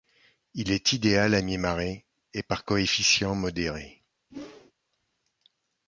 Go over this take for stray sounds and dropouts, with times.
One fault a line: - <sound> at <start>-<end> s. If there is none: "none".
- whoosh at 4.3-4.7 s